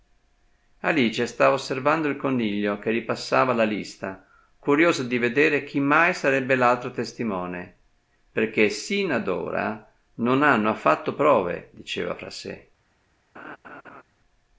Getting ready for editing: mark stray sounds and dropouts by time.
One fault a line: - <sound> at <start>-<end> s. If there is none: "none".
- laugh at 13.4-14.0 s